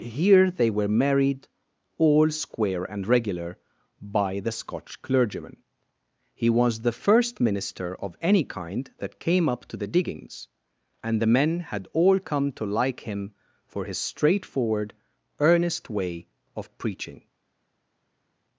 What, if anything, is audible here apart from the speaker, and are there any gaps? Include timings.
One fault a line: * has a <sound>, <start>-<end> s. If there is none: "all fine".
all fine